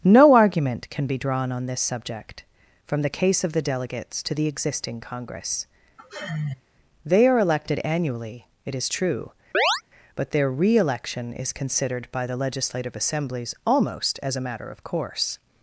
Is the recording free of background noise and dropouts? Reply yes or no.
no